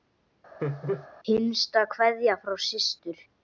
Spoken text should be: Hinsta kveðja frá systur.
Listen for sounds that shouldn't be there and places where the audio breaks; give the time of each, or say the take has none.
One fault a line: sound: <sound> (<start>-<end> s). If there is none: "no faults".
sound: laugh (0.6-1.1 s)